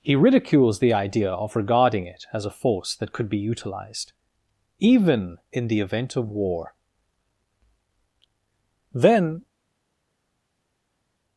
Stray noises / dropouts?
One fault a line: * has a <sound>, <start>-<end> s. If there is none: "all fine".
all fine